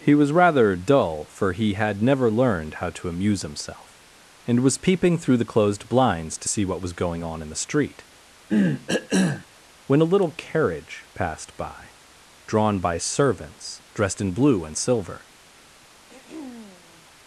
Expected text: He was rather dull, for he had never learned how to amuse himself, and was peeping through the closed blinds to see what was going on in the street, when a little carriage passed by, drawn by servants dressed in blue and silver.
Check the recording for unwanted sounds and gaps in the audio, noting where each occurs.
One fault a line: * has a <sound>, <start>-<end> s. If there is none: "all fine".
* has a cough, 8.5-9.5 s
* has a throat clearing, 16.1-17.1 s